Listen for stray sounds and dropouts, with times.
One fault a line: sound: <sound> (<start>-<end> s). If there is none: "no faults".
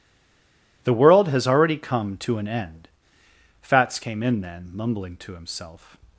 no faults